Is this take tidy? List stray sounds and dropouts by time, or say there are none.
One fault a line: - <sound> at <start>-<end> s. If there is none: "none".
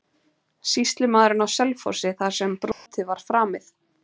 - dropout at 2.7-2.9 s